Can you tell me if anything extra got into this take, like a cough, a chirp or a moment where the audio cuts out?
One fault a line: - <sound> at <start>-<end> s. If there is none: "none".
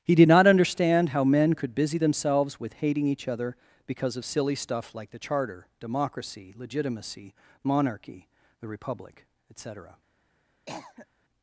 - cough at 10.7-11.1 s